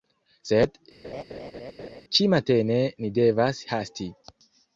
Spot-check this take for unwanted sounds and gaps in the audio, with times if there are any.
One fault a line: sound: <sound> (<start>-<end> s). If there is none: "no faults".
sound: laugh (1.0-2.0 s)